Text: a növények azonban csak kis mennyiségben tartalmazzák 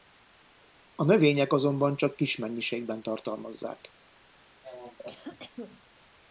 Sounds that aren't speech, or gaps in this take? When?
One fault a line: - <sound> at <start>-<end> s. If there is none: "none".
- cough at 4.6-5.8 s